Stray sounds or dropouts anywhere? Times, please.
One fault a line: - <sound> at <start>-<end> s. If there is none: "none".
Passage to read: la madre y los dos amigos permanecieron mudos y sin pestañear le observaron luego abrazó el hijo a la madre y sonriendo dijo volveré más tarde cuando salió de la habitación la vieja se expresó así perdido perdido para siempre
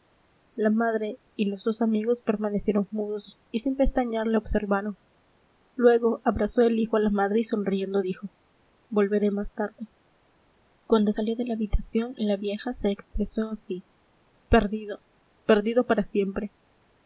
none